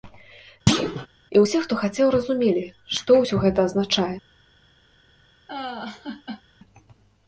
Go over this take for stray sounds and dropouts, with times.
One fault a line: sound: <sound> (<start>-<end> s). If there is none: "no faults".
sound: thud (0.7-1.1 s)
sound: laugh (5.5-6.4 s)